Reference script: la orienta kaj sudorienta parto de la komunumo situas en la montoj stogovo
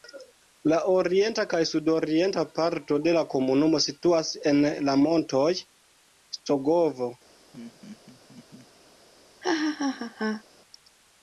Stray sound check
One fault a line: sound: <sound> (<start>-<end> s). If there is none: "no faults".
sound: laugh (7.5-8.7 s)
sound: laugh (9.4-10.4 s)